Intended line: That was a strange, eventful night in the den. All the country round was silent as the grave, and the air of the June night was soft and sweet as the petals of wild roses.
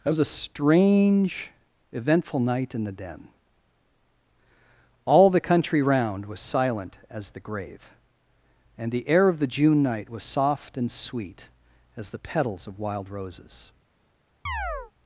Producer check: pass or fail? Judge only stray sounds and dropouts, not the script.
fail